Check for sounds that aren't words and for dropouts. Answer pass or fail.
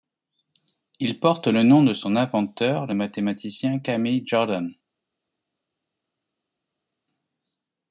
pass